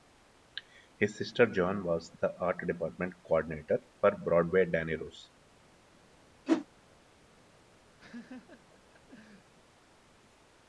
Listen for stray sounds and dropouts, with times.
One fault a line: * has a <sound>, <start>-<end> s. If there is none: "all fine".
* has a whoosh, 6.5-6.7 s
* has a laugh, 8.0-9.5 s